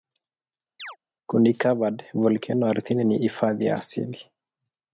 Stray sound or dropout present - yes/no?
yes